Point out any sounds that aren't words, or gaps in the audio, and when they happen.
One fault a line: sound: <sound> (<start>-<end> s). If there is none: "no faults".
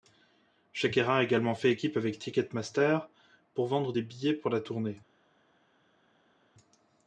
no faults